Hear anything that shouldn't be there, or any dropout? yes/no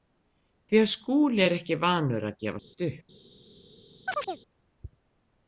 yes